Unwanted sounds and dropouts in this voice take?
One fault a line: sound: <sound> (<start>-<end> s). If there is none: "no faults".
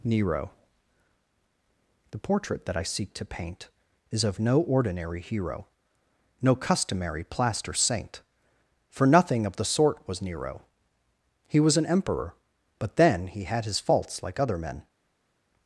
no faults